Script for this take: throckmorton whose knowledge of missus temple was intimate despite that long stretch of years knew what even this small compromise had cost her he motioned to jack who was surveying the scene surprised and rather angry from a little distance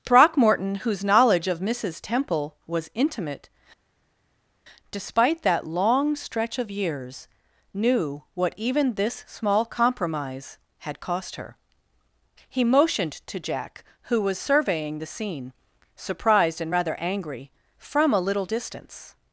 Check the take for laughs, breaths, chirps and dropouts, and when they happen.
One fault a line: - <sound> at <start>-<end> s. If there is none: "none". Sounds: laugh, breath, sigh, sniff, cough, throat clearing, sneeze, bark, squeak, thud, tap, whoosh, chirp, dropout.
none